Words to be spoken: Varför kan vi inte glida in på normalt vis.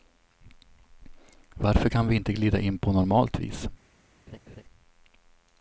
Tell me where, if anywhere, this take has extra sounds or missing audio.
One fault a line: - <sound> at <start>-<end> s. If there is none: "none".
- laugh at 4.3-4.6 s